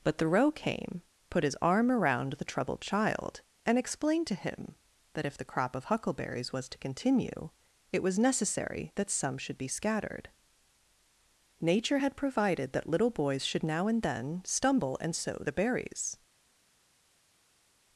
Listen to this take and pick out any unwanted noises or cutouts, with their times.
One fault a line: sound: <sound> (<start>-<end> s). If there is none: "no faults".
no faults